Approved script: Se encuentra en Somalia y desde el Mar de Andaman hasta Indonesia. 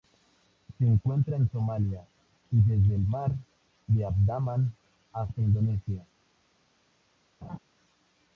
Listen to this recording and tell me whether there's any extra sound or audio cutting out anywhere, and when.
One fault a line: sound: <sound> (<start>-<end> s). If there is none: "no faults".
sound: laugh (7.4-7.6 s)